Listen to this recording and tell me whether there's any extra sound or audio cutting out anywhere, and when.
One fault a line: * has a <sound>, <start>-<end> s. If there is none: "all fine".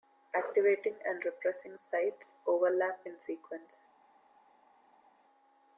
all fine